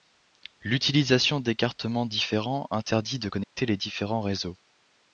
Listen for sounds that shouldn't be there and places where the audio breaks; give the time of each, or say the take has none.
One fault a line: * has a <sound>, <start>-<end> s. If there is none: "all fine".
* has a dropout, 3.4-3.5 s